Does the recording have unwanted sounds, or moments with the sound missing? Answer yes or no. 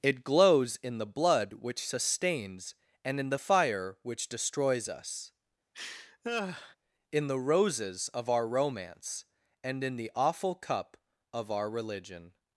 yes